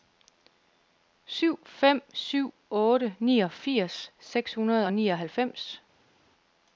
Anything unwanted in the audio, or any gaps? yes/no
no